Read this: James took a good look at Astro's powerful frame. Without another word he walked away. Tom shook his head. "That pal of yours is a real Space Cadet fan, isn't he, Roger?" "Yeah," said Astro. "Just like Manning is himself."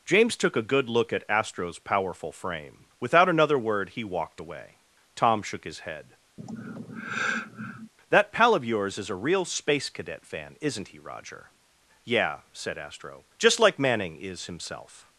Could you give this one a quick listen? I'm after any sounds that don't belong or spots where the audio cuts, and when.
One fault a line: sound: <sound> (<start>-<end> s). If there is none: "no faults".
sound: sigh (6.4-7.9 s)